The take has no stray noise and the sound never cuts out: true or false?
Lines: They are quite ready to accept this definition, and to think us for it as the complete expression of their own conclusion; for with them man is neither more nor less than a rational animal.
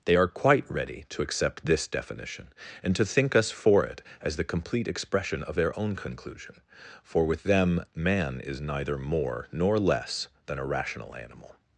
true